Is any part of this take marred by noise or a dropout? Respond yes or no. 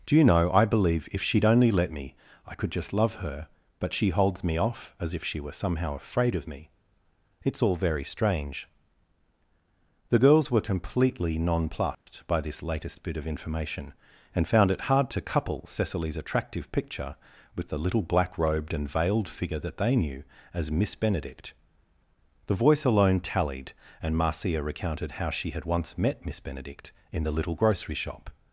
yes